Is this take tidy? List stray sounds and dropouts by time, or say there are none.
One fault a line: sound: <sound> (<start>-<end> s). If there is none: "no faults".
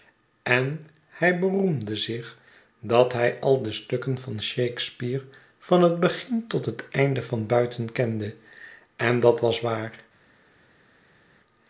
no faults